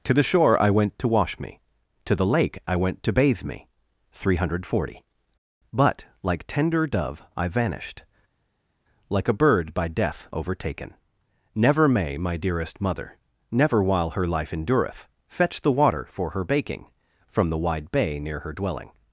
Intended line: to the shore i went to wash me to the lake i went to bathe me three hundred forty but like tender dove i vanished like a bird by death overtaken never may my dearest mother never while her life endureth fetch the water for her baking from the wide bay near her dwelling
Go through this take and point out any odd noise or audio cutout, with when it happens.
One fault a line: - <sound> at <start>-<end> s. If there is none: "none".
none